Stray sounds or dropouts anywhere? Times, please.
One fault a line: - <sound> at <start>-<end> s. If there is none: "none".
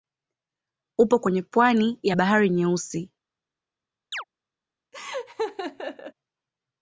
- chirp at 4.1-4.2 s
- laugh at 4.9-6.1 s